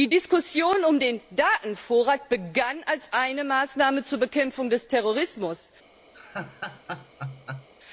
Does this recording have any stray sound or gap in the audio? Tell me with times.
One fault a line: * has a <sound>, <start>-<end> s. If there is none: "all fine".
* has a laugh, 6.1-7.7 s